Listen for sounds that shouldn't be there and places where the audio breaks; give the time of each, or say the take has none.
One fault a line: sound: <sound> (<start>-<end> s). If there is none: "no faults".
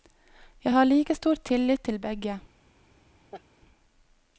sound: laugh (3.3-3.4 s)